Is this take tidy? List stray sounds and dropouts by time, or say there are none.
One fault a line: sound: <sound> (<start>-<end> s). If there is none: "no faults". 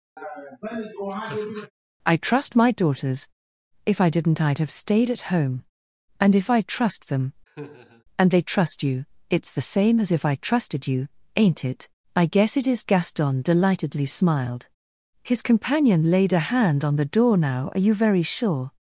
sound: laugh (0.2-1.7 s)
sound: laugh (7.5-8.0 s)